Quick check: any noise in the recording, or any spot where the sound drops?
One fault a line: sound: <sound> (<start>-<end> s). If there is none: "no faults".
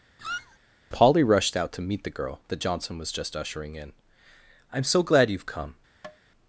sound: squeak (0.2-0.6 s)
sound: tap (6.0-6.2 s)